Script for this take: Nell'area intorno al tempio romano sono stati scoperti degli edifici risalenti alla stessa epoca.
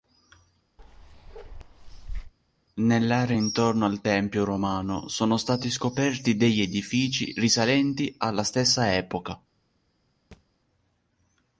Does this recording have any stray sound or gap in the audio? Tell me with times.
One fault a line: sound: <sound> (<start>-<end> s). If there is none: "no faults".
sound: bark (0.8-2.3 s)
sound: thud (10.3-10.5 s)